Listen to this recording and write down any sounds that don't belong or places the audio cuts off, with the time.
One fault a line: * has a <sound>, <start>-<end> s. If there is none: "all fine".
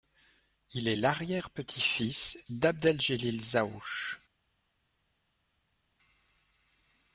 all fine